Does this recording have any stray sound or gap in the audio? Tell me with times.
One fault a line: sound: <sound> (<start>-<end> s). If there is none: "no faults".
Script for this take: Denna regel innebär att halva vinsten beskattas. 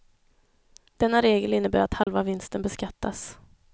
sound: dropout (2.0-2.1 s)